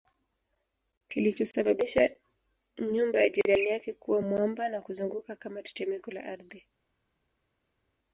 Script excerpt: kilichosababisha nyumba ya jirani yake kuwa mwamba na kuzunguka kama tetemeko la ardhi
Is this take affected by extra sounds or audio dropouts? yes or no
no